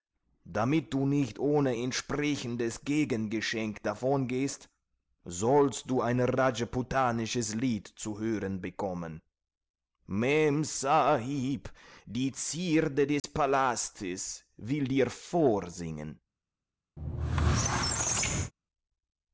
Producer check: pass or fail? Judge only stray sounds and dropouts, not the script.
fail